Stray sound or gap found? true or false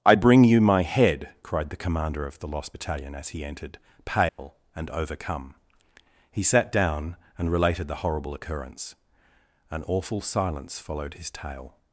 true